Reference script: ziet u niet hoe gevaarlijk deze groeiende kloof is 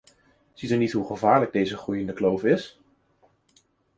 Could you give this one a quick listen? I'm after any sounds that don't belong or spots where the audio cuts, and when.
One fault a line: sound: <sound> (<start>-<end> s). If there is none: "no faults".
no faults